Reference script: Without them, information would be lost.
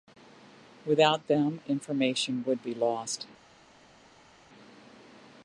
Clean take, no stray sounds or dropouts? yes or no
yes